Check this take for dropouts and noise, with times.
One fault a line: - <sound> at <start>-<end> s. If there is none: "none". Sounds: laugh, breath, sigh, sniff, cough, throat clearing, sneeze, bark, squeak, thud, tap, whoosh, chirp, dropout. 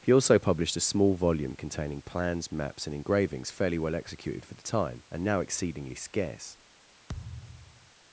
- thud at 7.1-7.9 s